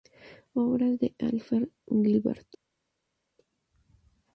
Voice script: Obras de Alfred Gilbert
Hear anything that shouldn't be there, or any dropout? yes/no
no